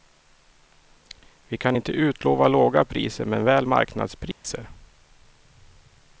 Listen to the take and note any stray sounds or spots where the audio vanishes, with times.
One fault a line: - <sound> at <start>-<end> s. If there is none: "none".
- dropout at 4.3-4.4 s